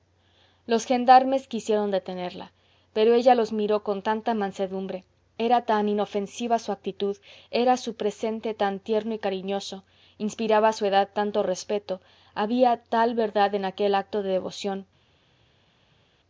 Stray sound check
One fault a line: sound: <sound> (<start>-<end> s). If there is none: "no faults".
no faults